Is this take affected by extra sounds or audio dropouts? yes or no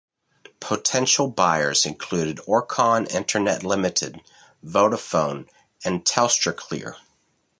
no